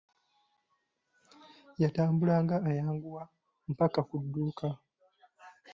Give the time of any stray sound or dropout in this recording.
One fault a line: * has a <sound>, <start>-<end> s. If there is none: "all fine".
all fine